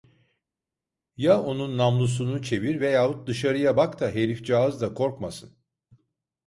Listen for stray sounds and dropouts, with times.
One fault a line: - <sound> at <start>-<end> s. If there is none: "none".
none